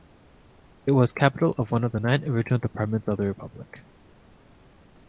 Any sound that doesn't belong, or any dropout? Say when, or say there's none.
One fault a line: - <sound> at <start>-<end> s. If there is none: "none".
none